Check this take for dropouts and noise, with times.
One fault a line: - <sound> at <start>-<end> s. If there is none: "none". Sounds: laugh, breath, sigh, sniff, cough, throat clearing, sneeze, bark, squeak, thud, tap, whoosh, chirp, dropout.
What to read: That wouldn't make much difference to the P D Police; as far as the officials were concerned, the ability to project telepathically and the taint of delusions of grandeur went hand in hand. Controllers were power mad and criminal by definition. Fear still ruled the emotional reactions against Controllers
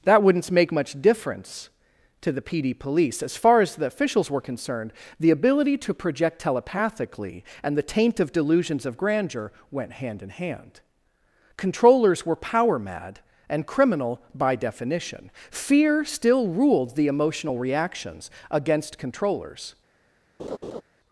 - laugh at 20.4-20.8 s